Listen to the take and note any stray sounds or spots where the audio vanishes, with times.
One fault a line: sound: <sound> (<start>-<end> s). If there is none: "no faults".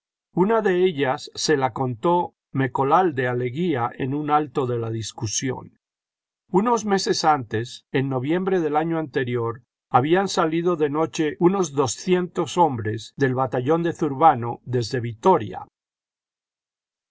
no faults